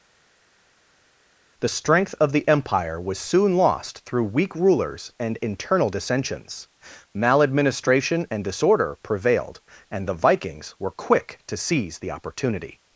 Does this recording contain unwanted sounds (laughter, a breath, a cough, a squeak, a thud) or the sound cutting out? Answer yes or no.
no